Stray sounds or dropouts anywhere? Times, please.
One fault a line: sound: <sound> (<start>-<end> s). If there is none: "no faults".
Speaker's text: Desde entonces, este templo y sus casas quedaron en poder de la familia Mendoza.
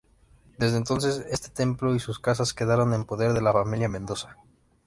no faults